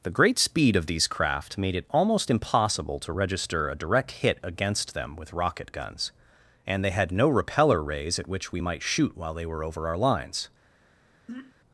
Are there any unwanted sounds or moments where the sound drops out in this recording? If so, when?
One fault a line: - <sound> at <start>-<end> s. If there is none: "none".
- throat clearing at 11.3-11.5 s